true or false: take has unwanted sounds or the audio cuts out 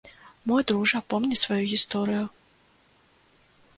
false